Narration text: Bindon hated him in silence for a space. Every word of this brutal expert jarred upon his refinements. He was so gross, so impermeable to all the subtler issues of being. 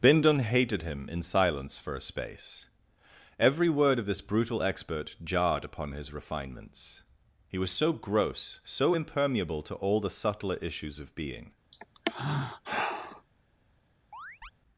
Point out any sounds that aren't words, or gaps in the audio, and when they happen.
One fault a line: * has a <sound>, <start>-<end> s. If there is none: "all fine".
* has a sigh, 11.7-13.3 s
* has a chirp, 14.1-14.5 s